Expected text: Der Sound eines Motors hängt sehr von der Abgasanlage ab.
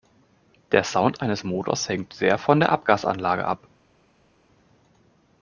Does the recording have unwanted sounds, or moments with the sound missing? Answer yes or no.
no